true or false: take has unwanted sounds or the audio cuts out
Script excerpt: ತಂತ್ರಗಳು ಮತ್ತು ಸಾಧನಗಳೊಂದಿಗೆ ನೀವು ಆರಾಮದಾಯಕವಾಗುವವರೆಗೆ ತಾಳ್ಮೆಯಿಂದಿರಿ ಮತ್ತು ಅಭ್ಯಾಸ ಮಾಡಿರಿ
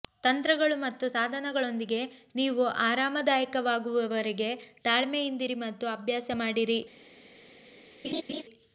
true